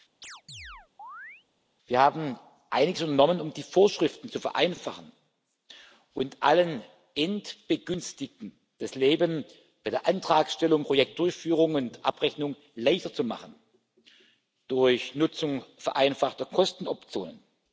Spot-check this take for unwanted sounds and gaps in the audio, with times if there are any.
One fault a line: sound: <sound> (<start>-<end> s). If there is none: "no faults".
sound: chirp (0.2-1.5 s)